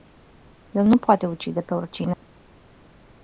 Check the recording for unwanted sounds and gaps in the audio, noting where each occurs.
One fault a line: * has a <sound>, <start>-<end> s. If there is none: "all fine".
* has a dropout, 2.1-2.2 s